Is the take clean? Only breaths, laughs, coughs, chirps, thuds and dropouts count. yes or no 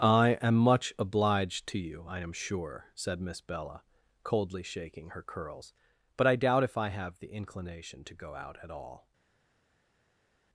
yes